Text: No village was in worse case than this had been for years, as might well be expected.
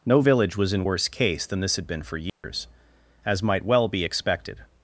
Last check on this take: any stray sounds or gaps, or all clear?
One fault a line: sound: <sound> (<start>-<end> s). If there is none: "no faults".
sound: dropout (2.3-2.4 s)